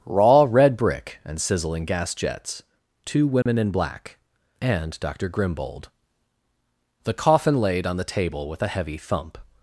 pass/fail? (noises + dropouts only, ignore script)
fail